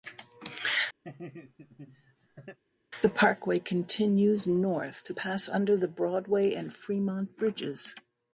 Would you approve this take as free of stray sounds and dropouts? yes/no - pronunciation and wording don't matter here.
no